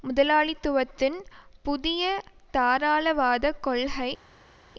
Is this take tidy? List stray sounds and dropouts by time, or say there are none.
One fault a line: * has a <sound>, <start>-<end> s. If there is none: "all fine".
all fine